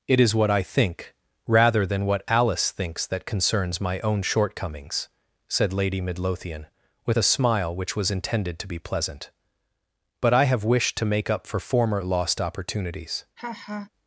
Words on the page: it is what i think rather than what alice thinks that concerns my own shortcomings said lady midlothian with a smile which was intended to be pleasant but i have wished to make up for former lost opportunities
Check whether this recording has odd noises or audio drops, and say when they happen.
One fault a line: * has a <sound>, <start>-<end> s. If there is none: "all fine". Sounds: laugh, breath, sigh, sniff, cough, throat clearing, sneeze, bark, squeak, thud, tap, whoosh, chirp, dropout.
* has a laugh, 13.4-13.9 s